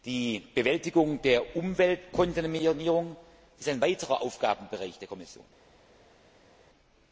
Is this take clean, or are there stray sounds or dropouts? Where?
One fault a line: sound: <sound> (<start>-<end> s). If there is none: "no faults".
no faults